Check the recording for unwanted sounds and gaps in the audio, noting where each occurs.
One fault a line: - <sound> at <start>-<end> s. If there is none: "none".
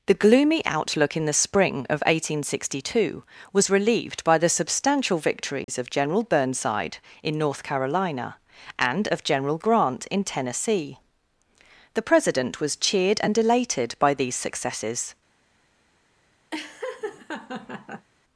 - dropout at 5.6-5.7 s
- laugh at 16.5-18.1 s